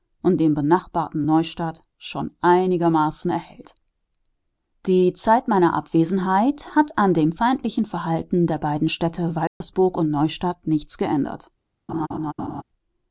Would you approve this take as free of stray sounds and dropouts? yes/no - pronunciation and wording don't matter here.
no